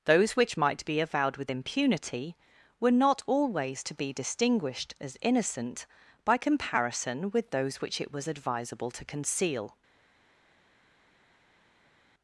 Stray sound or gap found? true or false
false